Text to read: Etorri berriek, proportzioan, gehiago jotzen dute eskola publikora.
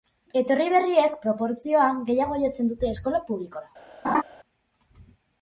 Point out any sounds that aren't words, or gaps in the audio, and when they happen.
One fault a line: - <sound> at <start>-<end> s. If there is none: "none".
- laugh at 4.0-4.2 s